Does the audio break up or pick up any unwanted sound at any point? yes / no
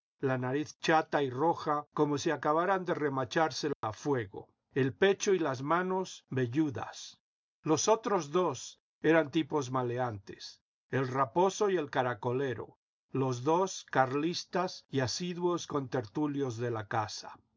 yes